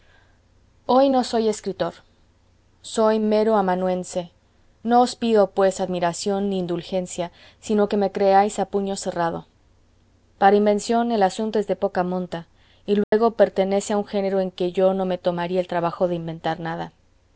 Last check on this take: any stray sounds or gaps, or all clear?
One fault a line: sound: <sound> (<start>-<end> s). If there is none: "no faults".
sound: dropout (13.0-13.1 s)